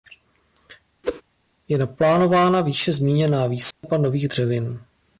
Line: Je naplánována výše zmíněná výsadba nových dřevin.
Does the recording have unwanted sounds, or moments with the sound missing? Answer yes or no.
yes